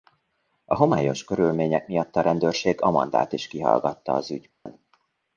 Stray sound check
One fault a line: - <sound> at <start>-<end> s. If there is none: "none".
- dropout at 4.5-4.7 s